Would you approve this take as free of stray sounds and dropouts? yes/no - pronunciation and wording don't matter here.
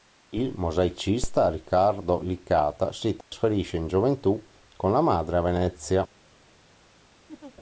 no